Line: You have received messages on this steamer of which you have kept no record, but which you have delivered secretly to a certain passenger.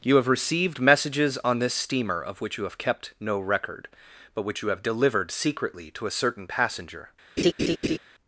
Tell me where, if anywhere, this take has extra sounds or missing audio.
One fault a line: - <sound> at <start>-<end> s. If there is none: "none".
- laugh at 7.4-8.0 s